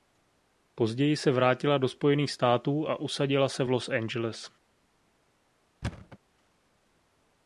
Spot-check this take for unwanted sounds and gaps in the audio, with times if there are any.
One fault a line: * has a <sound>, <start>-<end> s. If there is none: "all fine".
* has a thud, 5.8-6.2 s